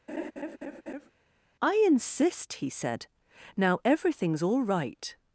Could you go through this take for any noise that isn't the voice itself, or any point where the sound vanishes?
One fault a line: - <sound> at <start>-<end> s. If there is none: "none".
- laugh at 0.1-1.1 s